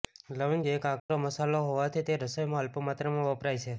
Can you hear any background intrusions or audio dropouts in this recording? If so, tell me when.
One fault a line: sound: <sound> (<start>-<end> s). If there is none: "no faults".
sound: dropout (1.0-1.1 s)